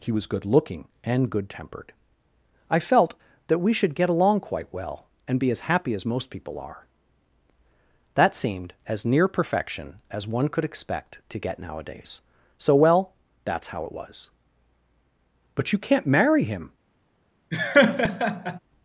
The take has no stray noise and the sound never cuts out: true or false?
false